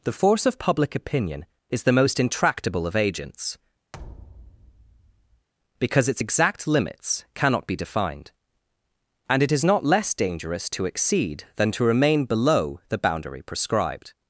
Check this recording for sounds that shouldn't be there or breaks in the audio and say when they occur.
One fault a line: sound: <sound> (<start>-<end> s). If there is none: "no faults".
sound: thud (3.9-5.5 s)